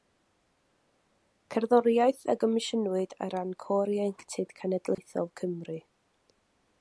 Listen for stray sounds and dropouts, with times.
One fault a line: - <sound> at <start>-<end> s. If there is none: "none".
- dropout at 4.9-5.0 s